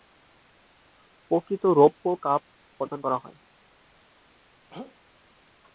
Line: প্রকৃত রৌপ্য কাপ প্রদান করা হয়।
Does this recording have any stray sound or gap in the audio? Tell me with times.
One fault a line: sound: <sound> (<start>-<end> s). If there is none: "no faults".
sound: throat clearing (4.7-5.0 s)